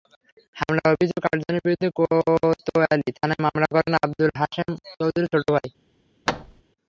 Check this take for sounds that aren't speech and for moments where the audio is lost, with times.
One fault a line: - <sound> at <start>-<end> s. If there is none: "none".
- thud at 6.3-6.6 s